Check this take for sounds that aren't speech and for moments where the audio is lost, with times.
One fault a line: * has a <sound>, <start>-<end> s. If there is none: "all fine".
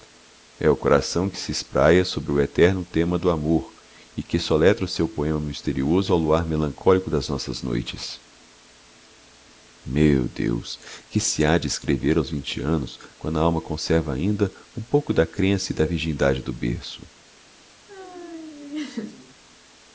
* has a laugh, 17.9-19.4 s